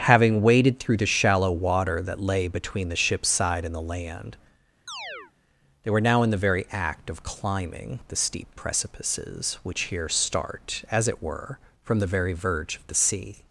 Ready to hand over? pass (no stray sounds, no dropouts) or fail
fail